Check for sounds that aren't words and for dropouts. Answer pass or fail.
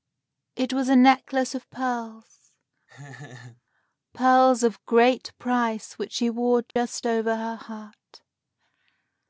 fail